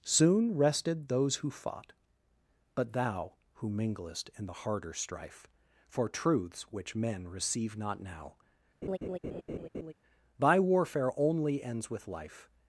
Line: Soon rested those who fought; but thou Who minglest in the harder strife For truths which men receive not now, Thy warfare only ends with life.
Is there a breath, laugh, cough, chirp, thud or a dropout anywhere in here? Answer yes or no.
yes